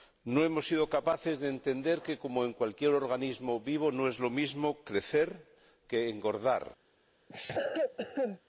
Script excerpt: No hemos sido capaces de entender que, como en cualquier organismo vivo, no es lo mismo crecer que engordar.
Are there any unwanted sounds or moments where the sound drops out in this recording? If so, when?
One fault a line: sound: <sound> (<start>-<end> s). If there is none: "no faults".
sound: cough (7.3-8.4 s)